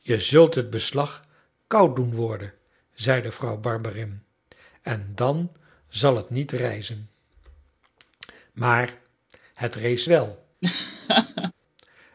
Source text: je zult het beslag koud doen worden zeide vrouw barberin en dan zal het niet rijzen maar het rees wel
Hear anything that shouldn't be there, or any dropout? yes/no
yes